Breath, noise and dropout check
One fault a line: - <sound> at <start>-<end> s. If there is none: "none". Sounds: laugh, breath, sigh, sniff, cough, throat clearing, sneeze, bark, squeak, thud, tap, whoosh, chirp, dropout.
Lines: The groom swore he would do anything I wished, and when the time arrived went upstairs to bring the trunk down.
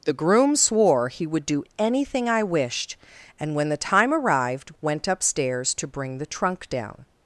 none